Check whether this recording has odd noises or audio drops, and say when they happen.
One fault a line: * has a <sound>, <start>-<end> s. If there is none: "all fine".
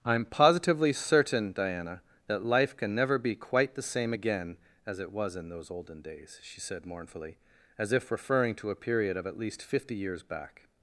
all fine